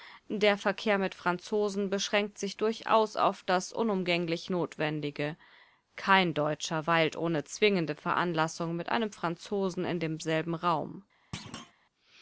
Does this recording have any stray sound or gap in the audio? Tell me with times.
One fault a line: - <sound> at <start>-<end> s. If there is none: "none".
- thud at 11.3-11.7 s